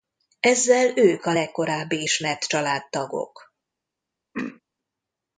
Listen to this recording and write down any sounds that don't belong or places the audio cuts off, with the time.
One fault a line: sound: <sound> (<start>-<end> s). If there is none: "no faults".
sound: throat clearing (4.3-4.6 s)